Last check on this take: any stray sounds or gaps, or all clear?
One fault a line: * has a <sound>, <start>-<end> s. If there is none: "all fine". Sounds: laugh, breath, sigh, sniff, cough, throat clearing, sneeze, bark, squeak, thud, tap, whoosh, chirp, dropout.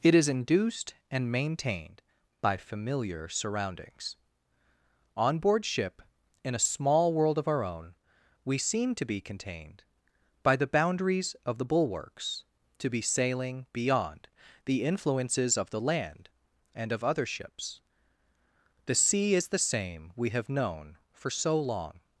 all fine